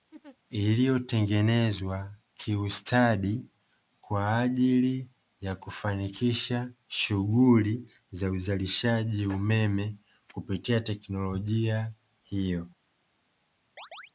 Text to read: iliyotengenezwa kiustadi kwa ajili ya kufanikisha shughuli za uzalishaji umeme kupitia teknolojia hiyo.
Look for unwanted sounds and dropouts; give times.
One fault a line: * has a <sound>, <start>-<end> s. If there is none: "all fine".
* has a laugh, 0.1-0.4 s
* has a chirp, 13.8-14.1 s